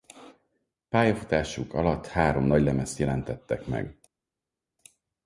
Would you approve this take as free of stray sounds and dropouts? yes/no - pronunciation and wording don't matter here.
yes